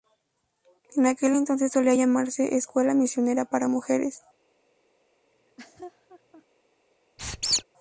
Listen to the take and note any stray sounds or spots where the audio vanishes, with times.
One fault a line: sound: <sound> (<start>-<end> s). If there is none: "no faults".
sound: laugh (5.3-6.4 s)
sound: squeak (7.2-7.6 s)